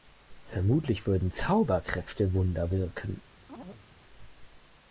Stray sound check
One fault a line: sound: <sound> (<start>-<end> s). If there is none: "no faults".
sound: chirp (3.5-3.9 s)